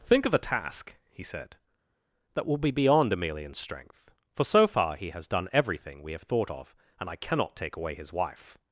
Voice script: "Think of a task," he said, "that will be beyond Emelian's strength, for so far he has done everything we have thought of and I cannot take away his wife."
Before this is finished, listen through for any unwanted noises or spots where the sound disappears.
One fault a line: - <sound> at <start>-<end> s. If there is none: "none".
none